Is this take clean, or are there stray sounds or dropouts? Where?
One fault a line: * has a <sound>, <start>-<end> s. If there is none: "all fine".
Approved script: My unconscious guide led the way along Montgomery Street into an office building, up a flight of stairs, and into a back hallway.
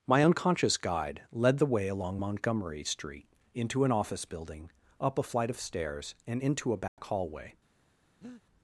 * has a dropout, 6.9-7.0 s
* has a breath, 8.2-8.4 s